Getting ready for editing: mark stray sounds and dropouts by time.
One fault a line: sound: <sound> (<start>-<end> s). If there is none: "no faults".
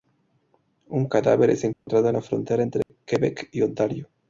sound: dropout (1.7-1.9 s)
sound: dropout (2.8-2.9 s)